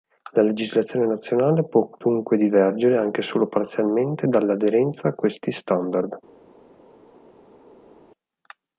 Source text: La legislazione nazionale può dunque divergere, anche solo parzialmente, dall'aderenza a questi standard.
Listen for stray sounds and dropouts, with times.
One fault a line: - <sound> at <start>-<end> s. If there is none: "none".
none